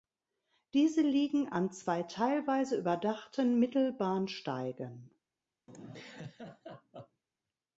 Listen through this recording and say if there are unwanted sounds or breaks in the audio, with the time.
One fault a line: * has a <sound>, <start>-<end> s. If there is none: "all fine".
* has a laugh, 5.7-7.2 s